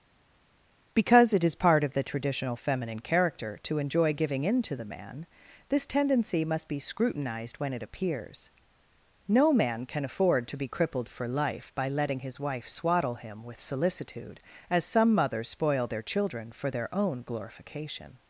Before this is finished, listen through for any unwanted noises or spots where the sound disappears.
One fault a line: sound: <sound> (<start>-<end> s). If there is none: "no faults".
no faults